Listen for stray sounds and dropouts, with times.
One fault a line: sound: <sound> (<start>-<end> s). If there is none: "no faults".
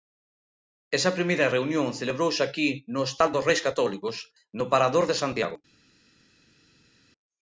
no faults